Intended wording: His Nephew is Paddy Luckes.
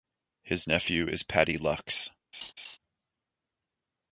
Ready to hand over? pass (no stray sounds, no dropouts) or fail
fail